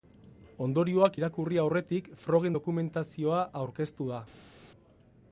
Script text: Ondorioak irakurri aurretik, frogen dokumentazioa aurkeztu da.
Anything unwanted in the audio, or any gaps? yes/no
no